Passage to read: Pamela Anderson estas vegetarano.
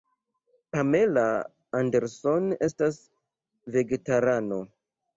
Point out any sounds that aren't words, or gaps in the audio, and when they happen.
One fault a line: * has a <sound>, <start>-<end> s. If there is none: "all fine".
all fine